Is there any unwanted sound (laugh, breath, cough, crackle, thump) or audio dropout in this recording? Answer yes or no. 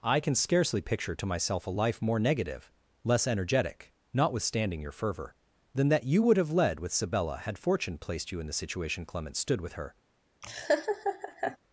yes